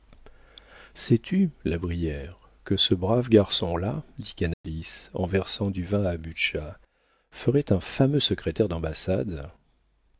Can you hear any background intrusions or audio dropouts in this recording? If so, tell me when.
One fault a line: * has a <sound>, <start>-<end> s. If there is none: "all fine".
* has a dropout, 4.5-4.6 s